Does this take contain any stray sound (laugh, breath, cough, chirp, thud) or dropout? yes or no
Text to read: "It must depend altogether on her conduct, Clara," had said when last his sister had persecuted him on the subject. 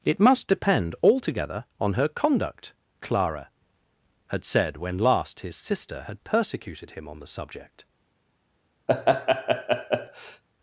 yes